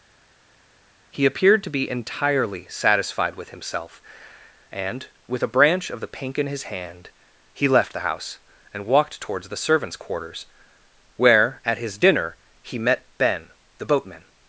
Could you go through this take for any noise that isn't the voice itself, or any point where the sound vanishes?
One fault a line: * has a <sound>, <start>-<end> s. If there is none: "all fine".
all fine